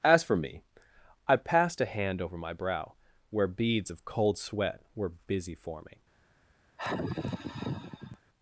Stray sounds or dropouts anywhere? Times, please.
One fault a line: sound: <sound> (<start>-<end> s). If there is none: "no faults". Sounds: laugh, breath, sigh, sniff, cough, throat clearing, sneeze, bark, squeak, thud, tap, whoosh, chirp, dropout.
sound: sigh (6.8-8.2 s)